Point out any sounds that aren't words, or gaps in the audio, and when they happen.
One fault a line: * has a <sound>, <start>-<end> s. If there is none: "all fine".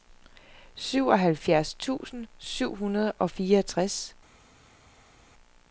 all fine